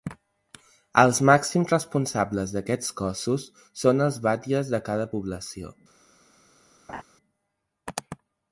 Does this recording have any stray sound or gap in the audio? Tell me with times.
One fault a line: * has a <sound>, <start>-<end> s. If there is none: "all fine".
* has a laugh, 6.9-7.0 s